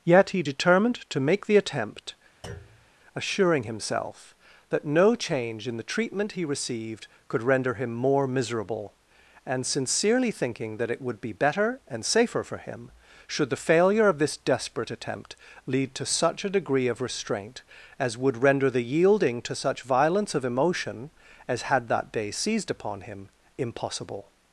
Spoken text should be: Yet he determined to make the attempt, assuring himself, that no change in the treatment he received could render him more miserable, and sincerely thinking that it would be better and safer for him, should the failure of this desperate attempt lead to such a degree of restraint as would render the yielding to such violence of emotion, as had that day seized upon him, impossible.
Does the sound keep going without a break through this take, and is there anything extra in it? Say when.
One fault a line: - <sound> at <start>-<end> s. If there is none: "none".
- thud at 2.4-2.9 s